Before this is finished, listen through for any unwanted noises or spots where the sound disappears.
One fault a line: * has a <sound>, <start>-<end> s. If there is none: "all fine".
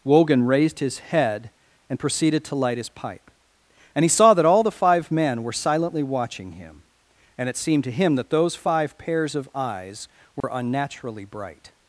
* has a dropout, 10.4-10.4 s